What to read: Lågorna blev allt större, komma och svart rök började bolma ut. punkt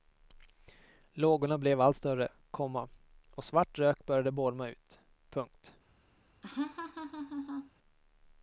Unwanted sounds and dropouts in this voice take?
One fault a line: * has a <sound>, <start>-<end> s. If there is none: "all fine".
* has a laugh, 6.4-7.7 s